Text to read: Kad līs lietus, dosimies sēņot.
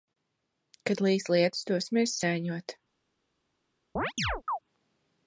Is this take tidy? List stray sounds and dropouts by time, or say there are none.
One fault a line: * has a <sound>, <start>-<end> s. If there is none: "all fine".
* has a chirp, 4.0-4.6 s